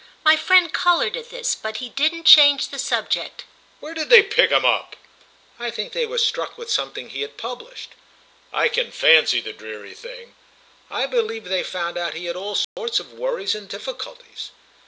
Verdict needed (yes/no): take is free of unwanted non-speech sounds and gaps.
no